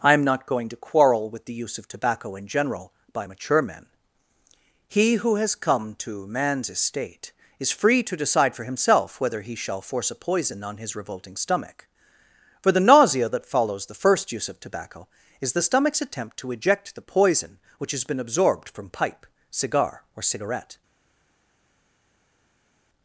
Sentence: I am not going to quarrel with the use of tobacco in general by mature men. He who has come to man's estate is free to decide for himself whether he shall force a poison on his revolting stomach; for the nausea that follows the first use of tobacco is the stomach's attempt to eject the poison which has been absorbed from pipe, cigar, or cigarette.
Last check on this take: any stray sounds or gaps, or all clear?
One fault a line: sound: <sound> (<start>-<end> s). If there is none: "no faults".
no faults